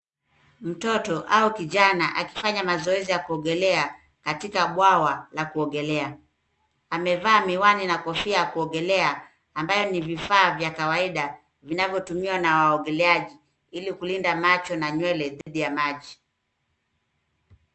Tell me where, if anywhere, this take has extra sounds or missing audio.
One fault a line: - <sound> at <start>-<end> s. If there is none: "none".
- dropout at 15.4-15.5 s